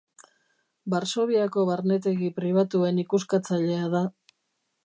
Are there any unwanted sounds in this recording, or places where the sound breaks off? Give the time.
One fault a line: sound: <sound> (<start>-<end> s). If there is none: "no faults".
no faults